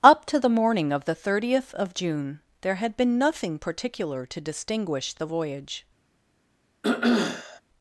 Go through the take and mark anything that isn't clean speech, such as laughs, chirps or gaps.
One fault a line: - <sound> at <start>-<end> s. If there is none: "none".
- throat clearing at 6.8-7.6 s